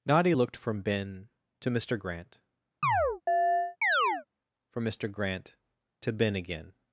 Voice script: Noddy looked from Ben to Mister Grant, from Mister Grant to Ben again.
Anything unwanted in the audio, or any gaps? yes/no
yes